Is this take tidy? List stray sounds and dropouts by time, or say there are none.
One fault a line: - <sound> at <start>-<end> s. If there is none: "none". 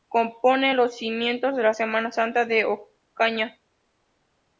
none